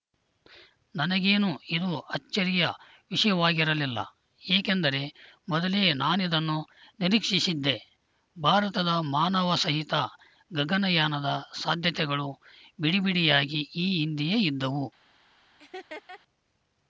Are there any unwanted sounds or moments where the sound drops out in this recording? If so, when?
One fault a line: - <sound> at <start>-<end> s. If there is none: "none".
- laugh at 15.6-16.2 s